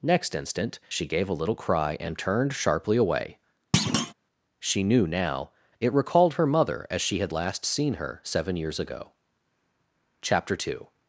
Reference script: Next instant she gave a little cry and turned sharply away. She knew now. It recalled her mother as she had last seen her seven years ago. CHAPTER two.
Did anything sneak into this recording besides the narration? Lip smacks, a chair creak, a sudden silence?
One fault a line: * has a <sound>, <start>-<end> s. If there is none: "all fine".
* has a thud, 3.7-4.1 s